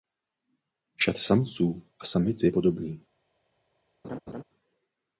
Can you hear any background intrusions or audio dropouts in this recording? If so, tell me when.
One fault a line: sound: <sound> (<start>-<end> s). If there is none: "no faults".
sound: laugh (4.0-4.4 s)